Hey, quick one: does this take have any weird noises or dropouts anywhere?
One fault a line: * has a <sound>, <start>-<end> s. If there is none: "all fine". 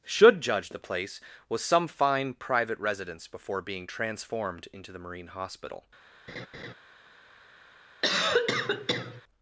* has a laugh, 6.3-6.7 s
* has a cough, 8.0-9.2 s